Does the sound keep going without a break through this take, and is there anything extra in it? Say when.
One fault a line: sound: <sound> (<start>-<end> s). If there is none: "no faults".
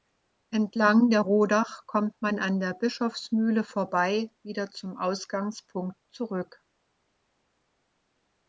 no faults